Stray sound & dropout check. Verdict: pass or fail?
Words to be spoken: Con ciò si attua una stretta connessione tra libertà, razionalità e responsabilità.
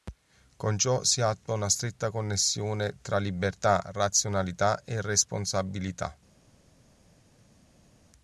pass